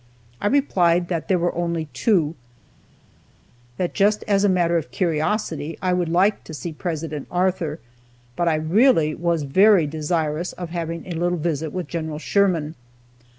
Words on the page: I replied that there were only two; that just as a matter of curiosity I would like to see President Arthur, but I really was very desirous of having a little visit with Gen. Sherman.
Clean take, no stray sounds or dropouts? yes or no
yes